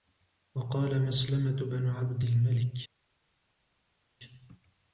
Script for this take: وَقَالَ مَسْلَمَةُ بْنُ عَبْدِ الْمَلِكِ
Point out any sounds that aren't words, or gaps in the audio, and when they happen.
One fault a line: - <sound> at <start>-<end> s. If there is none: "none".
none